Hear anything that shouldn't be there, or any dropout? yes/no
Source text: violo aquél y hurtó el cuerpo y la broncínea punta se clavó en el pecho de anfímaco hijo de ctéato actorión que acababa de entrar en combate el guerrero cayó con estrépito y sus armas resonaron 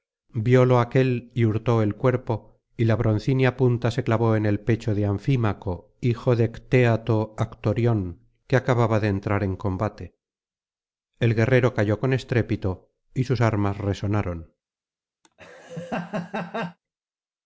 yes